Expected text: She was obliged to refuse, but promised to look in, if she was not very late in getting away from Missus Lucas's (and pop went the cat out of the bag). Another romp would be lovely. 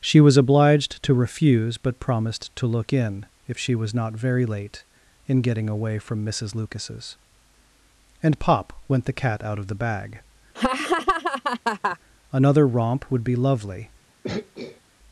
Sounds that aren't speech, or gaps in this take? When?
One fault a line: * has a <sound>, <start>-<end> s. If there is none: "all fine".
* has a laugh, 10.6-12.0 s
* has a throat clearing, 14.2-14.8 s